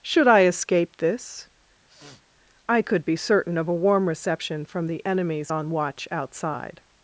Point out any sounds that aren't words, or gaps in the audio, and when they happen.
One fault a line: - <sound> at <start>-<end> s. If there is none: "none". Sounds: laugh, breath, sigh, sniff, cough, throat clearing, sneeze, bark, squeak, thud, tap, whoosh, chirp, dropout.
- sniff at 1.9-2.2 s